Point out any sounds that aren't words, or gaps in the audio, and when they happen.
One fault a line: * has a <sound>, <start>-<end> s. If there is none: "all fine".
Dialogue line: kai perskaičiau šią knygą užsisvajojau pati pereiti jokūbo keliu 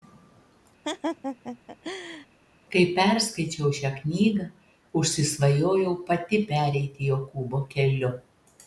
* has a laugh, 0.8-2.3 s